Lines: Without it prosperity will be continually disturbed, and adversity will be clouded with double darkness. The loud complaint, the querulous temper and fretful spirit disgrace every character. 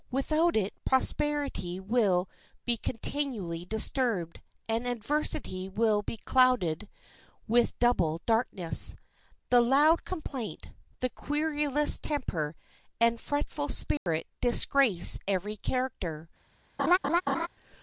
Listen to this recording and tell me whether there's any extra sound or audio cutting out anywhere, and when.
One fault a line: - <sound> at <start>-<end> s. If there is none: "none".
- dropout at 14.0-14.1 s
- laugh at 16.8-17.5 s